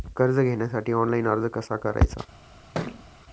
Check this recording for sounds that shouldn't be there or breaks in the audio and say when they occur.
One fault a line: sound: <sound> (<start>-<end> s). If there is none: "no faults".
sound: thud (2.7-3.0 s)